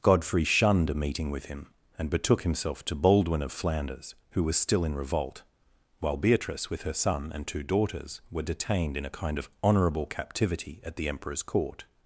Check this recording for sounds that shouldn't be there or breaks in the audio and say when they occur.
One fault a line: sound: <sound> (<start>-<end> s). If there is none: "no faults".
no faults